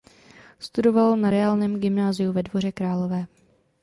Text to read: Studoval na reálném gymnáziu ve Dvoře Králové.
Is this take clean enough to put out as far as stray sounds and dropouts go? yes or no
yes